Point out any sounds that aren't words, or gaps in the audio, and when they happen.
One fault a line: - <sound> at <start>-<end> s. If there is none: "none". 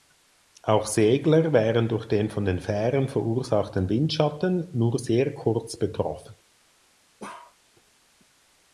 - bark at 7.2-7.6 s